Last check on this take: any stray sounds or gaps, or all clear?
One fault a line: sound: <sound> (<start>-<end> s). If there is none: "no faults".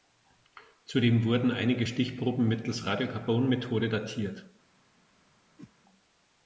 sound: whoosh (5.6-5.7 s)